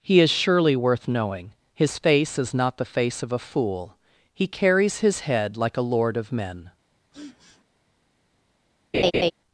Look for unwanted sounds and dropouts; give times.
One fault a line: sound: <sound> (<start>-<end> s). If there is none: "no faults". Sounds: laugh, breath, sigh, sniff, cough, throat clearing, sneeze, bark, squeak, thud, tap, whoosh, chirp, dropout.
sound: sniff (7.1-7.6 s)
sound: laugh (8.9-9.3 s)